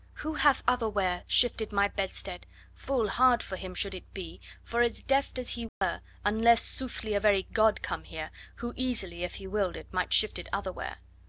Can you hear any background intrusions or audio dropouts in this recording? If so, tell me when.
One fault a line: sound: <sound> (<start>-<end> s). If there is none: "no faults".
sound: dropout (5.7-5.8 s)